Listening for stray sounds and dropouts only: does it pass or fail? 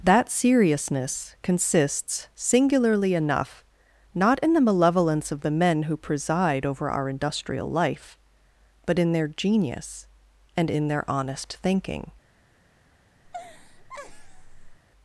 fail